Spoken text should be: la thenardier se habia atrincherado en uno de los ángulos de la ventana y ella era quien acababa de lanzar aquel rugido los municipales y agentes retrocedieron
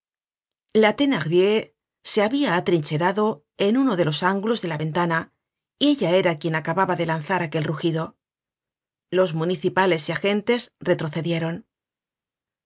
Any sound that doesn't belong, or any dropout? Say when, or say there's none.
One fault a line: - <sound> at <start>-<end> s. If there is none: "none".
none